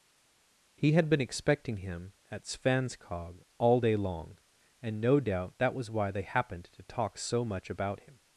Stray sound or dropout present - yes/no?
no